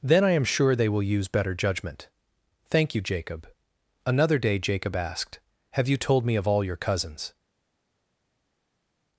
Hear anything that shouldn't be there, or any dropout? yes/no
no